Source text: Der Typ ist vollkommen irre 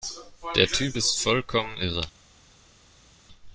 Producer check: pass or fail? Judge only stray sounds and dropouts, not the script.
pass